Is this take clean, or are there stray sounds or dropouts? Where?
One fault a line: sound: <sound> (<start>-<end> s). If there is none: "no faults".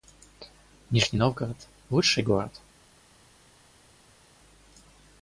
no faults